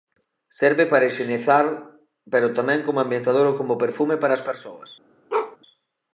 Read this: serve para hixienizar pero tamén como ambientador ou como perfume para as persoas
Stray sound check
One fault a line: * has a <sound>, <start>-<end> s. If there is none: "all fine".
* has a bark, 5.3-5.6 s